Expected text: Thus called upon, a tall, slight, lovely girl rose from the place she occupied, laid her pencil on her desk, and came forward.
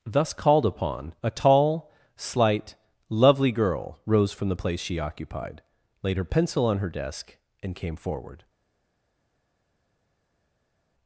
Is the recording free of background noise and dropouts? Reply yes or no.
yes